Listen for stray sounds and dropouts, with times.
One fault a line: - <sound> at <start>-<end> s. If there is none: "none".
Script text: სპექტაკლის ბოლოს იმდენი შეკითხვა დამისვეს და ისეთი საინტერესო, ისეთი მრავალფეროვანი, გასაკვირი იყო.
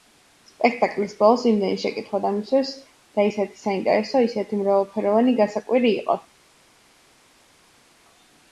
none